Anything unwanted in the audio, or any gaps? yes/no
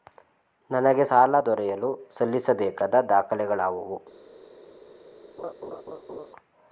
yes